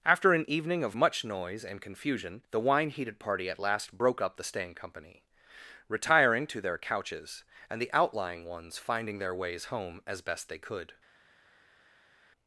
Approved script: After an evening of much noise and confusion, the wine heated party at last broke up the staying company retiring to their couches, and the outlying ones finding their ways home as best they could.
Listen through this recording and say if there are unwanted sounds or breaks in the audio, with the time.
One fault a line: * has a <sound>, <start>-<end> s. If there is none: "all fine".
all fine